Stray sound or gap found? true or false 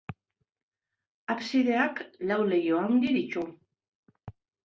false